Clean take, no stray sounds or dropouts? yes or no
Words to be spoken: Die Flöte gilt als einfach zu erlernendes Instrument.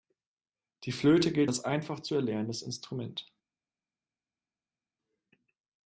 yes